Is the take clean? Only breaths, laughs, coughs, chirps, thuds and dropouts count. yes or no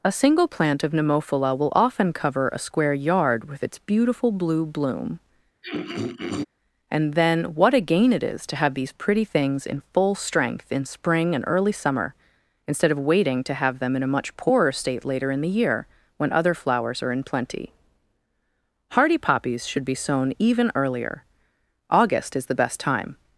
no